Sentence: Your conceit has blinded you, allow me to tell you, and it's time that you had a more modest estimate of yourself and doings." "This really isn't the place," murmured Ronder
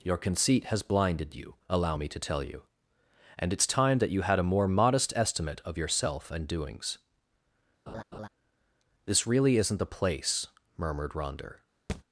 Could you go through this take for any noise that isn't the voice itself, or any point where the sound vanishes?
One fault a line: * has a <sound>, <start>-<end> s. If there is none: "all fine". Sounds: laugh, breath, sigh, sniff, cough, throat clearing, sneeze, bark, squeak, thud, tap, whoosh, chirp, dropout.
* has a laugh, 7.9-8.3 s
* has a thud, 11.9-12.0 s